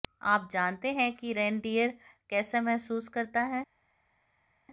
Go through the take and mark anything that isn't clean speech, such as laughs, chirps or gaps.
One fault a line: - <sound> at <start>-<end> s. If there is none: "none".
none